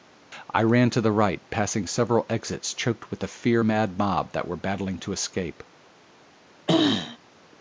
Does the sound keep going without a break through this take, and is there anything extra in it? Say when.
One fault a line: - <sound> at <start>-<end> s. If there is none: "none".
- throat clearing at 6.7-7.2 s